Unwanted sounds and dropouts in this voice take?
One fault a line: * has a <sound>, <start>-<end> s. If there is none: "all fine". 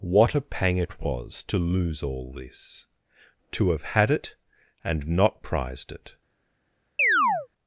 * has a chirp, 7.0-7.5 s